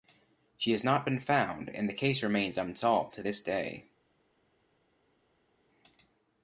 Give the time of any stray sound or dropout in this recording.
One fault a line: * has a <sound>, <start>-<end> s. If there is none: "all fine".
all fine